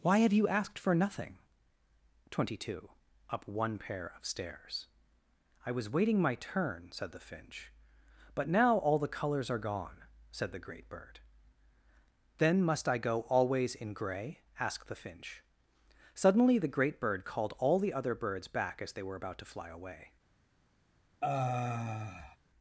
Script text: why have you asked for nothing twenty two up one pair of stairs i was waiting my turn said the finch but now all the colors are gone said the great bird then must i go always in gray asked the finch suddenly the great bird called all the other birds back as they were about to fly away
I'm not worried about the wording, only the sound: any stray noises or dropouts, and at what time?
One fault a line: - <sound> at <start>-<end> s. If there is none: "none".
- sigh at 21.2-22.4 s